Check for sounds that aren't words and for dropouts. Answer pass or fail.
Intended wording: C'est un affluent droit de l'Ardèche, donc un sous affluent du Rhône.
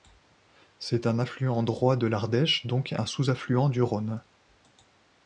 pass